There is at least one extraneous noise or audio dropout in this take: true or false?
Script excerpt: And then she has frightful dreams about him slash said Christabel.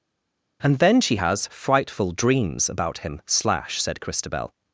false